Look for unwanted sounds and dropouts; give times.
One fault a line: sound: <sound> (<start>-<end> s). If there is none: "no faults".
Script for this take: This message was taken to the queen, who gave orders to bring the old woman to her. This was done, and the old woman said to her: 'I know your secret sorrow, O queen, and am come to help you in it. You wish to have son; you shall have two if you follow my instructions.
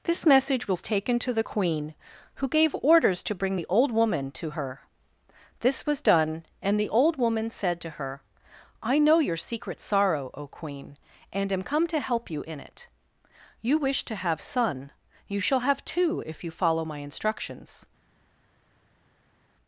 no faults